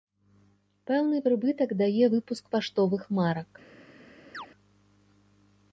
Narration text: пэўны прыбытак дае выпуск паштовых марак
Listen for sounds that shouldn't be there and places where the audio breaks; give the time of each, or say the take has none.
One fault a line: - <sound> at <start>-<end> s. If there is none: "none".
- chirp at 4.3-4.5 s